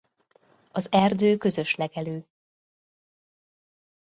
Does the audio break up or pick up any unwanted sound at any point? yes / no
no